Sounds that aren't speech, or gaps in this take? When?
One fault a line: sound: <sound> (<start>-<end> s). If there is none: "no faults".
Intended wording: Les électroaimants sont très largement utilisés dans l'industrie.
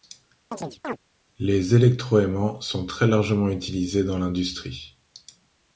sound: chirp (0.5-1.0 s)